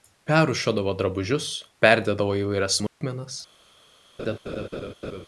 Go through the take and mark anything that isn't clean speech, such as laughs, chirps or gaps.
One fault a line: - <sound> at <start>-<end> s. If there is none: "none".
- dropout at 2.9-3.0 s
- laugh at 4.2-5.3 s